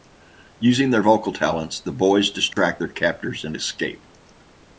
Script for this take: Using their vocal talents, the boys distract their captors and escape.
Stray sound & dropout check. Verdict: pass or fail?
fail